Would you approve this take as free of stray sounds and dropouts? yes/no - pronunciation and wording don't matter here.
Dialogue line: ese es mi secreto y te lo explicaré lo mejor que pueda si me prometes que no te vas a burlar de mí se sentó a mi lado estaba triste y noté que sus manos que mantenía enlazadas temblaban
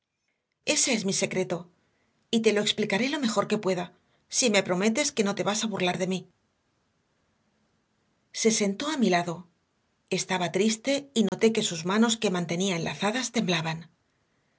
no